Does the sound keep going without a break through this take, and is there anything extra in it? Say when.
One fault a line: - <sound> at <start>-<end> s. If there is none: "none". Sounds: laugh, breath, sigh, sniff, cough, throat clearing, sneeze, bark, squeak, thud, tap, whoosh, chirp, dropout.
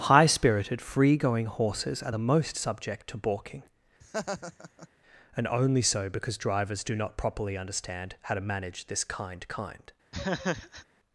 - laugh at 4.0-4.9 s
- laugh at 10.1-10.9 s